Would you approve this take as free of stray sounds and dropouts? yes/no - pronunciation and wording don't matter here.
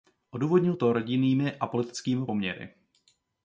yes